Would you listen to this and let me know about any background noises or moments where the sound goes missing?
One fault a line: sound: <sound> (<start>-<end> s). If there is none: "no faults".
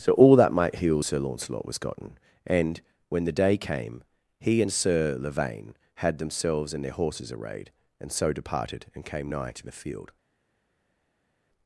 no faults